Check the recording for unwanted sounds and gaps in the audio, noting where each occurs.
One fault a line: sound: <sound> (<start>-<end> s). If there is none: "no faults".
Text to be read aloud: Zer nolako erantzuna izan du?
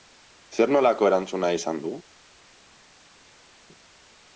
no faults